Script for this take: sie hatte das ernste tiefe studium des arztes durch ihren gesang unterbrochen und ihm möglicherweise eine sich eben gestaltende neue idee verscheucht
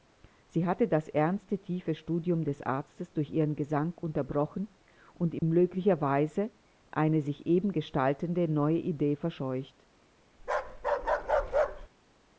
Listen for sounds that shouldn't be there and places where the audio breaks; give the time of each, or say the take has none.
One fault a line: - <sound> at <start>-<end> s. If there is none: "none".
- dropout at 5.4-5.4 s
- bark at 10.4-11.9 s